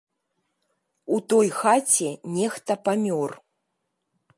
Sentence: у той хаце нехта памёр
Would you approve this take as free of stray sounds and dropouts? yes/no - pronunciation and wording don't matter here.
yes